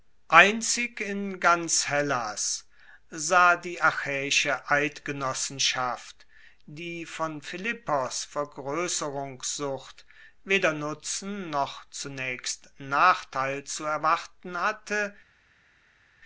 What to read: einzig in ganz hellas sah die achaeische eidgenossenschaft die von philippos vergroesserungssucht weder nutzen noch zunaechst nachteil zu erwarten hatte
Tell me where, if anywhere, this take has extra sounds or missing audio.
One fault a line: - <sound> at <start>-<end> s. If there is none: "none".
none